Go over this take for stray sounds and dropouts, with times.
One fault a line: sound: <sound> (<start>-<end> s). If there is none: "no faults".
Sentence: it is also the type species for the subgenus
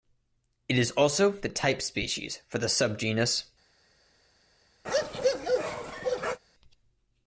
sound: bark (4.8-6.4 s)